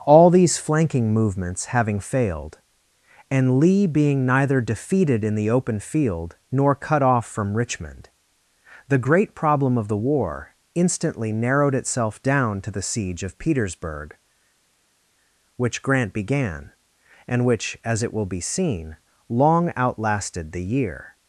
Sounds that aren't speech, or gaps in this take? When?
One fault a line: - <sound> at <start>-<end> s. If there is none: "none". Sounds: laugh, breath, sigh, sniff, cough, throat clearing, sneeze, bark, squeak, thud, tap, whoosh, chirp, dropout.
none